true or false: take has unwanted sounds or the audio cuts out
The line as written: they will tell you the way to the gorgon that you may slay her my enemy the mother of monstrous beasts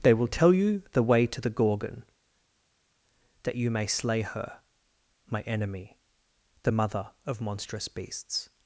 false